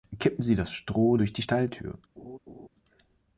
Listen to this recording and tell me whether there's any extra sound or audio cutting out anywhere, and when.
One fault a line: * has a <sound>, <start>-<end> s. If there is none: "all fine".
* has a laugh, 2.2-2.7 s